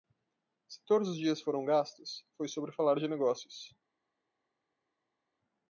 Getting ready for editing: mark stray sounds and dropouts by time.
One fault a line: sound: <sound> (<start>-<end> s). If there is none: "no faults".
no faults